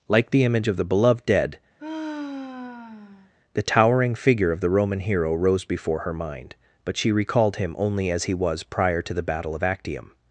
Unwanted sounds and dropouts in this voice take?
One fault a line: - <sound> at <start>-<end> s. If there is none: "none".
- sigh at 1.8-3.3 s